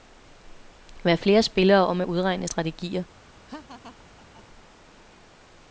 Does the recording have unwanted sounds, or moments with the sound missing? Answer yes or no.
yes